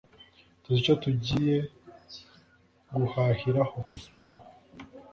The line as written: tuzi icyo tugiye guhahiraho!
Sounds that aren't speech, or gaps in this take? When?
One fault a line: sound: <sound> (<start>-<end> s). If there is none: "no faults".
sound: thud (4.0-4.2 s)